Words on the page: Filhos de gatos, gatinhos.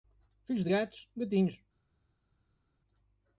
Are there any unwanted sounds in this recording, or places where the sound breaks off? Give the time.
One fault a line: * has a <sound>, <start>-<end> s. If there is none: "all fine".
all fine